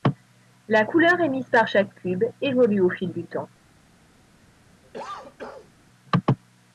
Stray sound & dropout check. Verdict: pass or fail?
fail